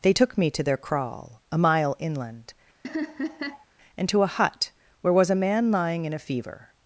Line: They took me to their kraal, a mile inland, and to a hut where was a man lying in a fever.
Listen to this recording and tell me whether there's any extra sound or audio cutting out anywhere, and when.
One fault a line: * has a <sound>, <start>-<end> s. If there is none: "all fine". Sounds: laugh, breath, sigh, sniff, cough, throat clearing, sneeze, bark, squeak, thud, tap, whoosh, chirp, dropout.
* has a laugh, 2.8-3.6 s